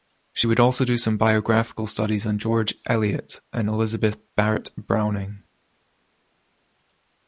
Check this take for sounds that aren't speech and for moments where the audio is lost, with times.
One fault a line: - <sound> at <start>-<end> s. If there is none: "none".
none